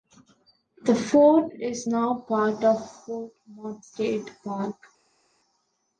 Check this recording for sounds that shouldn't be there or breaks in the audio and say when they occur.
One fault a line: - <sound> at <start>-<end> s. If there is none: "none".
none